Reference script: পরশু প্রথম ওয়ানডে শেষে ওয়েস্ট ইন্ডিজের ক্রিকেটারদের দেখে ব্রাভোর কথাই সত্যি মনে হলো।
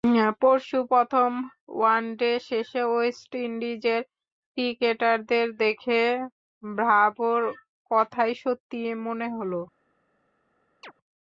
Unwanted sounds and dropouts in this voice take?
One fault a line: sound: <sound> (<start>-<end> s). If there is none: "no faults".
sound: chirp (10.8-10.9 s)